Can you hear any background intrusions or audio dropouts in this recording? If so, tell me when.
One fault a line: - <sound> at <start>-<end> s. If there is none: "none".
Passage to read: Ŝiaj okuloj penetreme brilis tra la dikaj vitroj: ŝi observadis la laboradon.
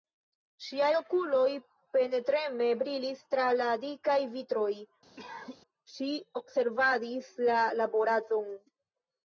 - cough at 5.2-5.6 s